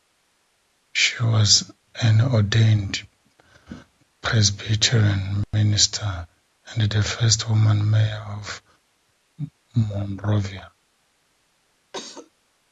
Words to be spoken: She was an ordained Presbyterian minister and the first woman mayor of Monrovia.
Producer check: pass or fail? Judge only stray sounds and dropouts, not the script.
fail